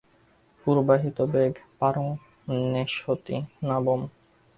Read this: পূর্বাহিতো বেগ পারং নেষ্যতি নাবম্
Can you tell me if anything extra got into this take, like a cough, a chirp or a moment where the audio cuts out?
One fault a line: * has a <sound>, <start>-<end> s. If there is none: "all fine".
all fine